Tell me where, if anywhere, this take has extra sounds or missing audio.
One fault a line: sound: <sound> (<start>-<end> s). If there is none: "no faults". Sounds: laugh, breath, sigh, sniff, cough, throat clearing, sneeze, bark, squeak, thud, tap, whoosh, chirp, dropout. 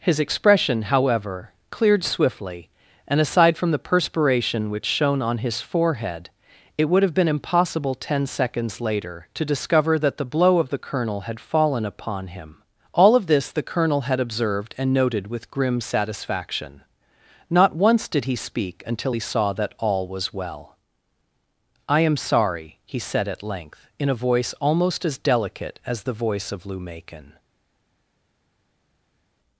no faults